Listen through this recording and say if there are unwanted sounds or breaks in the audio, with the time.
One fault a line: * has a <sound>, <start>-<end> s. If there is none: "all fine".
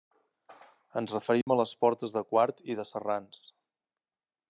* has a dropout, 1.4-1.5 s